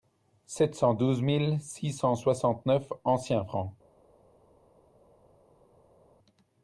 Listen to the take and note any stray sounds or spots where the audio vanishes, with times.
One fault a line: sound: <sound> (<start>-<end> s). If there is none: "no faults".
no faults